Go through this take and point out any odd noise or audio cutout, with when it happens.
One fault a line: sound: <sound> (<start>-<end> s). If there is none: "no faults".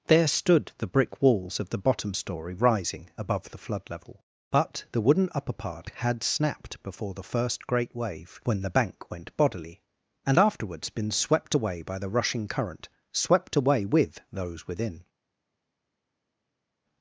no faults